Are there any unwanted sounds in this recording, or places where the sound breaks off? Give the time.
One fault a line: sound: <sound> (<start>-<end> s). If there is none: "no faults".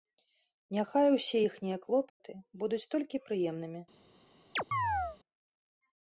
sound: dropout (2.1-2.2 s)
sound: chirp (4.6-5.2 s)